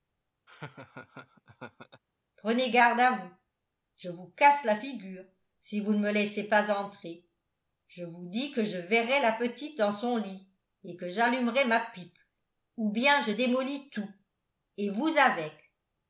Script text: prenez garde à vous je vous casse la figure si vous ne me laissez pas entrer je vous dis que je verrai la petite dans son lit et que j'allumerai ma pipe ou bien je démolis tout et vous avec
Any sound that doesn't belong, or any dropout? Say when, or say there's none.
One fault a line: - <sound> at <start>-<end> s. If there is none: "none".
- laugh at 0.5-2.0 s